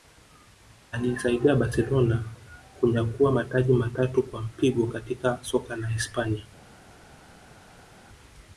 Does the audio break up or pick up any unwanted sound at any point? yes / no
no